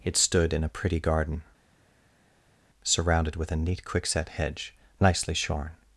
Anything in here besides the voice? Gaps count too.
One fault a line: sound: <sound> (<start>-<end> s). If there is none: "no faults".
no faults